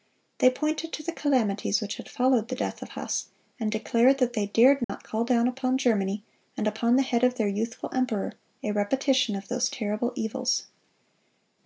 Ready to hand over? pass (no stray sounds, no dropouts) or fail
fail